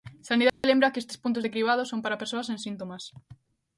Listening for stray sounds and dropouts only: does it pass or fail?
fail